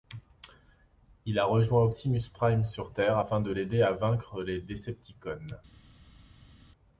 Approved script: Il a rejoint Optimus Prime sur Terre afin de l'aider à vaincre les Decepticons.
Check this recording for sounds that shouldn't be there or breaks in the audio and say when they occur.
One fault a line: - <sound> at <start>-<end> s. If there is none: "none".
none